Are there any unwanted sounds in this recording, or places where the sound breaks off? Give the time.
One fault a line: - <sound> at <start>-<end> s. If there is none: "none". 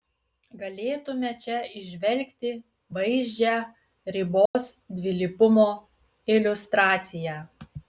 - dropout at 4.5-4.6 s